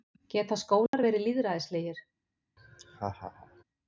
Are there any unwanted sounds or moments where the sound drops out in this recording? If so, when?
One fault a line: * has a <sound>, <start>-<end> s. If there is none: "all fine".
* has a dropout, 0.9-0.9 s
* has a laugh, 2.6-3.6 s